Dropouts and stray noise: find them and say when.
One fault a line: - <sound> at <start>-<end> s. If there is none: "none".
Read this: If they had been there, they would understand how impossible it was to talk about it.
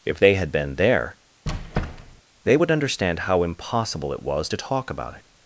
- squeak at 1.5-2.2 s